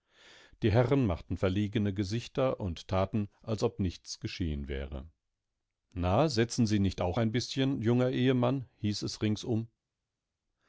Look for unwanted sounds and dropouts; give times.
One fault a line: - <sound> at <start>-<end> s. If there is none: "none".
none